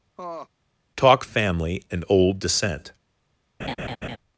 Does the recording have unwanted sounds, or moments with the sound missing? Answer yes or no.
yes